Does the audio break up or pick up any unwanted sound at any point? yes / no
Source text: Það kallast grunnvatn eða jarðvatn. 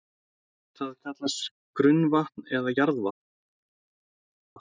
no